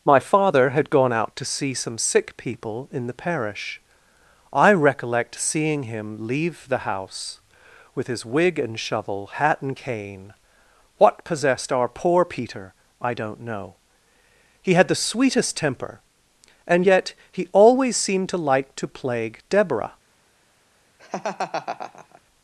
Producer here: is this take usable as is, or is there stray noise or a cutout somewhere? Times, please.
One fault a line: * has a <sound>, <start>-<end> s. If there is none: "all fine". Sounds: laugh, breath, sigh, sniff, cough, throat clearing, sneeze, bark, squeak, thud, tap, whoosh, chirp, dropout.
* has a laugh, 21.0-22.2 s